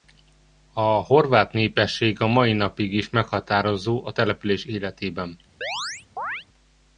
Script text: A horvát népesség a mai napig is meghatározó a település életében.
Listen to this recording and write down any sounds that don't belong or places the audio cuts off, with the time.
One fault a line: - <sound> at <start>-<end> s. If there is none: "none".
- chirp at 5.6-6.5 s